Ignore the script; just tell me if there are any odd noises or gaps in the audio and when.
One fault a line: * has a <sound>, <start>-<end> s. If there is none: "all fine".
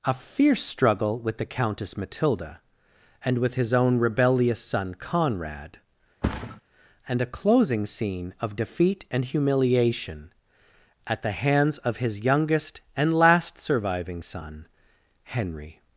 * has a thud, 6.2-6.6 s